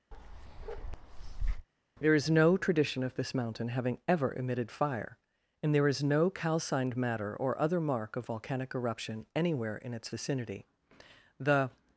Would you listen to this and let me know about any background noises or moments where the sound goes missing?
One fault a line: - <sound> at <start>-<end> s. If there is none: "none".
- bark at 0.1-1.7 s